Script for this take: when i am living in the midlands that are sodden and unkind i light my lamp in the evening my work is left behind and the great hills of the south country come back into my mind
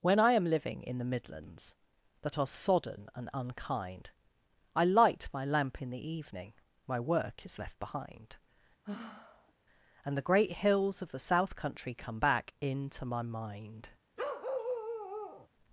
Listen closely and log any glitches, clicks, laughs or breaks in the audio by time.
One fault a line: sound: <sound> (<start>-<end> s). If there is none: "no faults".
sound: sigh (8.8-9.5 s)
sound: bark (14.2-15.5 s)